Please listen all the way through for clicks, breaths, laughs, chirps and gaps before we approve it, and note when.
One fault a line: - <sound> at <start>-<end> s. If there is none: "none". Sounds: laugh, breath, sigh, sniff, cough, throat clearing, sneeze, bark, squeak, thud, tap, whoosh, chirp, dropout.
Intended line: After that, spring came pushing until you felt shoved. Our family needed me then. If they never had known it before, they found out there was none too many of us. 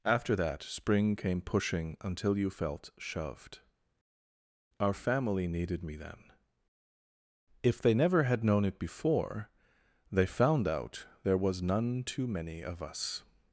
none